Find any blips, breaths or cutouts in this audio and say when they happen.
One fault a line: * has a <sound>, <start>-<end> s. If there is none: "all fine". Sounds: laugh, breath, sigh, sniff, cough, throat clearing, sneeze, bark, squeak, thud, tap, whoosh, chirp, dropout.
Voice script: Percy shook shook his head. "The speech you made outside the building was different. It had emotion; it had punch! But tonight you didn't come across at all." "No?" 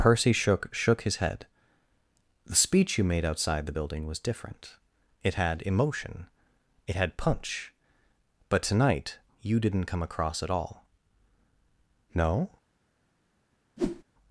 * has a whoosh, 13.8-14.0 s